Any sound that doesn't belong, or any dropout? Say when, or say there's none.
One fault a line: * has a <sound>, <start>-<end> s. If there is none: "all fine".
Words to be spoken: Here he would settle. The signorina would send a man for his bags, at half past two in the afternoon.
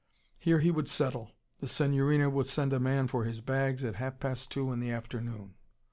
all fine